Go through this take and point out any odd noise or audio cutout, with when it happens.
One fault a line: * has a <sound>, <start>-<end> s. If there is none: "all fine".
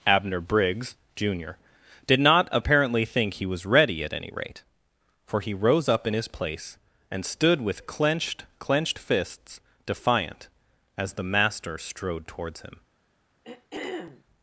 * has a throat clearing, 13.4-14.2 s